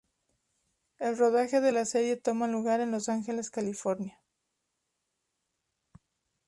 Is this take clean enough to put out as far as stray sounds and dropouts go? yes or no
yes